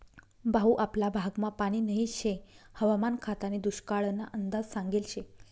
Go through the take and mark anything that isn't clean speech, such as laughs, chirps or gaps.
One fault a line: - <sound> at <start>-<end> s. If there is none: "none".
none